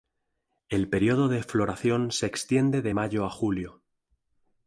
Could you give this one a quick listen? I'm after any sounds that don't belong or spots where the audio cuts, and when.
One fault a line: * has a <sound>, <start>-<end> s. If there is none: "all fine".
all fine